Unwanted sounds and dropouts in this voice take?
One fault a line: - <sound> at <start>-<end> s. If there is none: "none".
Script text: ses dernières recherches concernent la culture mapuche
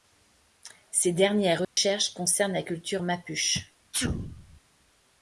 - dropout at 1.6-1.8 s
- sneeze at 3.9-4.6 s